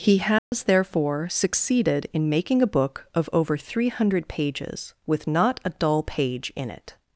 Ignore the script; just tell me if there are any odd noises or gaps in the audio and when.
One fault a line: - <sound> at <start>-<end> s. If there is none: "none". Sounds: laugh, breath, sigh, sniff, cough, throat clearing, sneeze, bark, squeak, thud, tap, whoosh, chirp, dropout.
- dropout at 0.4-0.5 s